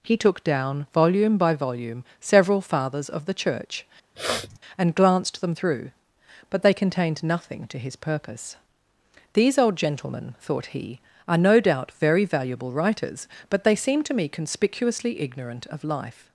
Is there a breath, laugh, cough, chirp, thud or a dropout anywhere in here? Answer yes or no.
yes